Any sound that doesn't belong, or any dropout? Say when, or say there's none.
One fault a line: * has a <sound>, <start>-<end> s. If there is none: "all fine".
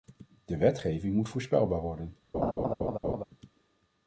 * has a laugh, 2.3-3.2 s